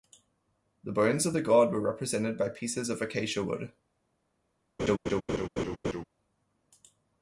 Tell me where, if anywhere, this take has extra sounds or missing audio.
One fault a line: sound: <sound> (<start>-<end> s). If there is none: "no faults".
sound: laugh (4.8-6.0 s)